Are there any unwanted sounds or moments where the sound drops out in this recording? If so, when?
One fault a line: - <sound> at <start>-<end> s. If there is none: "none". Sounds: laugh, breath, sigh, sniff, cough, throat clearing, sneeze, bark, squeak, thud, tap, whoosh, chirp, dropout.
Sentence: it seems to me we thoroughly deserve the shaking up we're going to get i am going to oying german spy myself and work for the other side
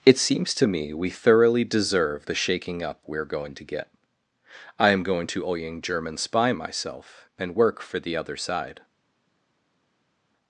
none